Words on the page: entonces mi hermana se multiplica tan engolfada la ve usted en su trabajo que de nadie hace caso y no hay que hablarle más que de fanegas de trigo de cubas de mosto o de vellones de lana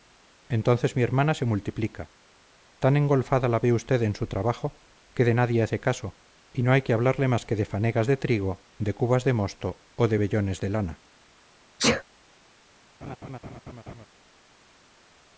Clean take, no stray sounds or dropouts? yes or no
no